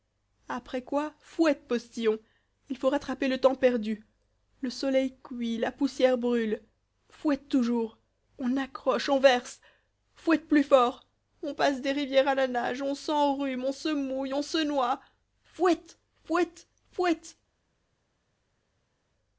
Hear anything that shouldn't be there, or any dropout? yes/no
no